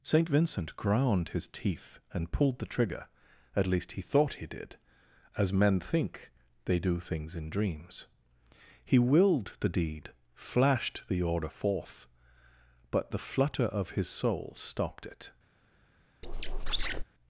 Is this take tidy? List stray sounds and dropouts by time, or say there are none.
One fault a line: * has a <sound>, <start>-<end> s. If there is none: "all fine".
* has a squeak, 16.2-17.0 s